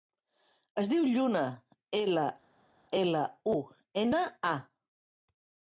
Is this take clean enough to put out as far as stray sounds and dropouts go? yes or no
yes